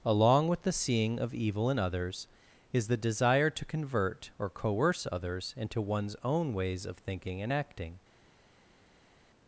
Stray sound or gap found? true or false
false